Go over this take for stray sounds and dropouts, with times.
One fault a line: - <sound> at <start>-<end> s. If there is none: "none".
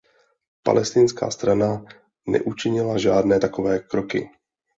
none